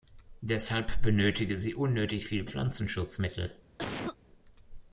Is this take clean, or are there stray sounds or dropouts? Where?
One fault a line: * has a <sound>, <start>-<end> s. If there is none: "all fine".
* has a cough, 3.8-4.2 s